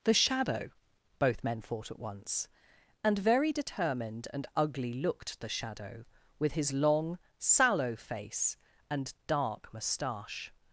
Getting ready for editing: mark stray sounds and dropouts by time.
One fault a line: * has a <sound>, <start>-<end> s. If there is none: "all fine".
all fine